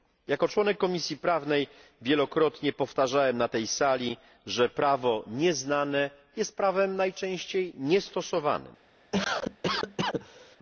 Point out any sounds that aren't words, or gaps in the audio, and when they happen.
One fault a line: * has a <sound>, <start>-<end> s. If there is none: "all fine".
* has a cough, 9.1-10.6 s